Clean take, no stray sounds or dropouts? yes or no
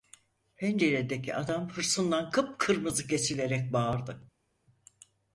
yes